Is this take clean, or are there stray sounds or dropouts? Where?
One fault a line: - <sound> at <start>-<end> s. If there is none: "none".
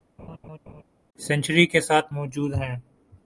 - laugh at 0.2-0.8 s